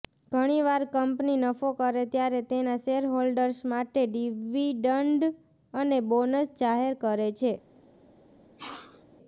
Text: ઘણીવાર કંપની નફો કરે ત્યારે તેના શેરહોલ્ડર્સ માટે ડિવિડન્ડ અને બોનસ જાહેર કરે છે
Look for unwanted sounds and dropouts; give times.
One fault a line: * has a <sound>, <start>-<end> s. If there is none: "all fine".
* has a sneeze, 8.6-9.0 s